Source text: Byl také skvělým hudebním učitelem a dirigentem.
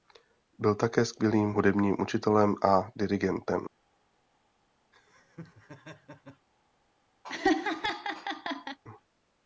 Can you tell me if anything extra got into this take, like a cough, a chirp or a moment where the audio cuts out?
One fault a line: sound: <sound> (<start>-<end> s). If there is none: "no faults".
sound: laugh (4.9-6.5 s)
sound: laugh (7.2-8.8 s)